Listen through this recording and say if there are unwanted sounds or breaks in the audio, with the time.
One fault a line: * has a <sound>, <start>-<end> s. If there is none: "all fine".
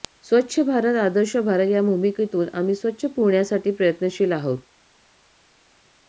all fine